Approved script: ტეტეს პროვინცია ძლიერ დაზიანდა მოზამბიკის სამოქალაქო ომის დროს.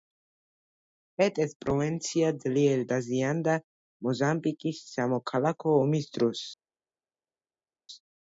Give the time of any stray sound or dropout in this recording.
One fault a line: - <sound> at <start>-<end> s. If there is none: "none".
none